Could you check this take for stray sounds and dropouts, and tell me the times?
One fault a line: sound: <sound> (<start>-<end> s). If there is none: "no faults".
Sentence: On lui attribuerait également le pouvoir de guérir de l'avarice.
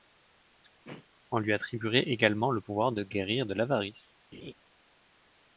sound: throat clearing (0.8-1.1 s)
sound: laugh (4.3-4.5 s)